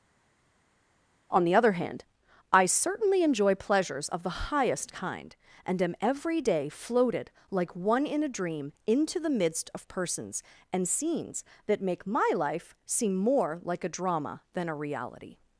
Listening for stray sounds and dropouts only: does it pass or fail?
pass